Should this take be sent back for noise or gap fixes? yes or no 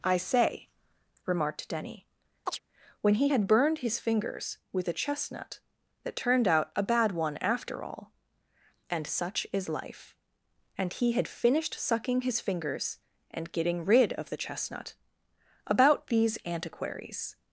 yes